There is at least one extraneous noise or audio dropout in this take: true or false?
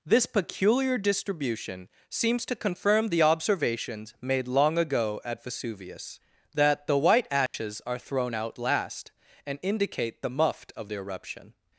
true